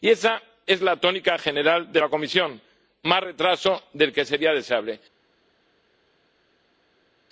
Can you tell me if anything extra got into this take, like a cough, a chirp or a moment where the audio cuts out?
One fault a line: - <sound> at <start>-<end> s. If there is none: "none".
none